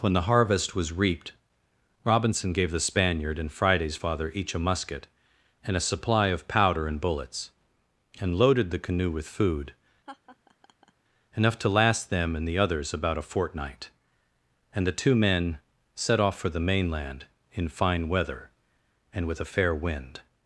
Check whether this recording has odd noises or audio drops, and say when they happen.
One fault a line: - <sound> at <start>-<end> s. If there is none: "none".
- laugh at 10.1-10.9 s